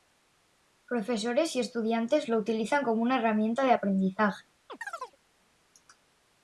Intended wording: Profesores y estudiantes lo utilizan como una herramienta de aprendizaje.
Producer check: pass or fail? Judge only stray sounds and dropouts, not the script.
fail